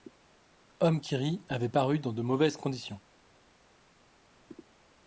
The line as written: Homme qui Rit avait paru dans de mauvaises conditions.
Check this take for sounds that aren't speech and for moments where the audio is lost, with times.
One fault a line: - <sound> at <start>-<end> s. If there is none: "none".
none